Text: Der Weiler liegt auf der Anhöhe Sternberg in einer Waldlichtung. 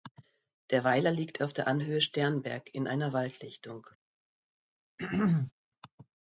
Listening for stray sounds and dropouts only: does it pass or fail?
fail